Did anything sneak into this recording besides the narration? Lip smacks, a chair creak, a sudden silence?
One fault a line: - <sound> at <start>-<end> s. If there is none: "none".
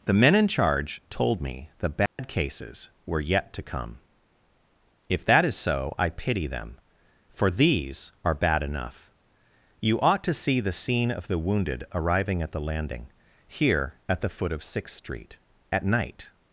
- dropout at 2.1-2.2 s